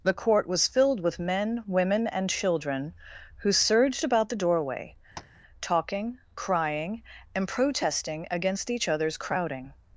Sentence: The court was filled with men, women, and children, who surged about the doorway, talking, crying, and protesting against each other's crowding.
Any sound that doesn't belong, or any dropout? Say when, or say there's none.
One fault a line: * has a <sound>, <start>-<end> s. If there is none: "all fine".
* has a tap, 5.2-5.4 s